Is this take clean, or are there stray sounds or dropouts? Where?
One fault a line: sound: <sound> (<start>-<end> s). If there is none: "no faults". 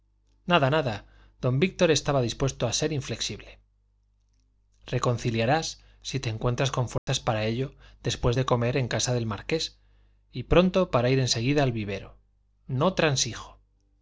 sound: dropout (7.0-7.1 s)